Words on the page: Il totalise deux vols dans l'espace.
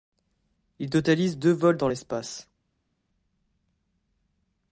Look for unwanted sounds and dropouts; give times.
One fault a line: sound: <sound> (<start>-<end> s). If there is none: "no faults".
no faults